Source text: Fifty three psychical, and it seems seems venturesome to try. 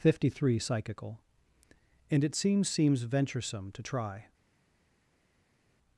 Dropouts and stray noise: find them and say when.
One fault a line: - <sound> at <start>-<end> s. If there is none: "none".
none